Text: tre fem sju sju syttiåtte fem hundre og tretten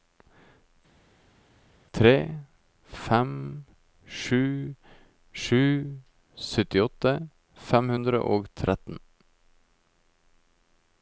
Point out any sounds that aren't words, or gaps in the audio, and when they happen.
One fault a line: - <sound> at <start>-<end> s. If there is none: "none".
none